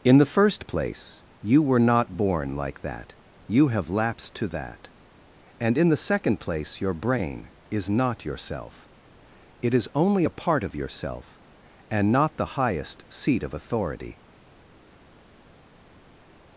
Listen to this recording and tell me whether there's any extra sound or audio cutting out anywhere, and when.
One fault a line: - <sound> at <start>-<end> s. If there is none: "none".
none